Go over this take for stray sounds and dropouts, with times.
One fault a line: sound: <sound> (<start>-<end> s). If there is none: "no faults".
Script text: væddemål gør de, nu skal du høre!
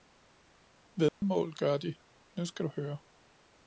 sound: dropout (1.1-1.2 s)